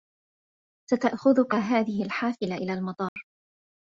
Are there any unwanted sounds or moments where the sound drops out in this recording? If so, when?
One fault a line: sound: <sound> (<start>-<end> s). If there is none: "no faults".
sound: dropout (3.1-3.2 s)